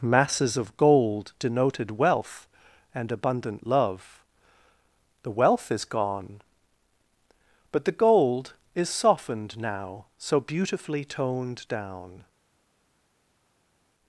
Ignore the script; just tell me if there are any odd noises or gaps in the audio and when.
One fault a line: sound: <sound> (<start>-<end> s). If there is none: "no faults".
no faults